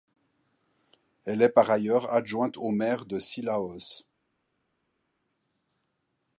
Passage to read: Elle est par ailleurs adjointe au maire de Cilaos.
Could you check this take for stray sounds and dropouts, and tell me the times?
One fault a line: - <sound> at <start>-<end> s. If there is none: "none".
none